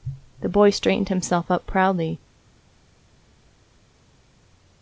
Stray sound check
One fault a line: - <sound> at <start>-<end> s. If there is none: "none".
none